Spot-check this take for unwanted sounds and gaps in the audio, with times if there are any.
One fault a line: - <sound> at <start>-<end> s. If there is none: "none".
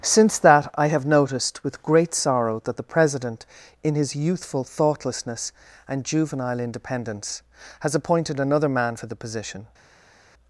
none